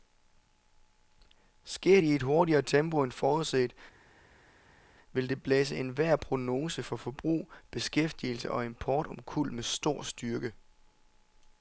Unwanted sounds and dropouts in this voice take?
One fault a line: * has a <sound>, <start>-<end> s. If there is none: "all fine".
all fine